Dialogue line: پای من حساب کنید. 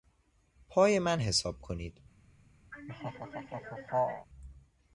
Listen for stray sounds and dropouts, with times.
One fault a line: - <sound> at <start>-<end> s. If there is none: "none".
- laugh at 2.7-4.3 s